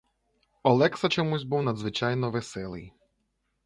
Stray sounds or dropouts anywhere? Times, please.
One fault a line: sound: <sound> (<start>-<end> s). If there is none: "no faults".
no faults